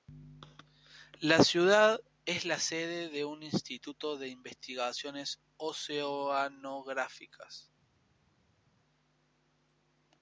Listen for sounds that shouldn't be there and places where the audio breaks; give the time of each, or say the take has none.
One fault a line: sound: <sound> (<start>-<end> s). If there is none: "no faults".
no faults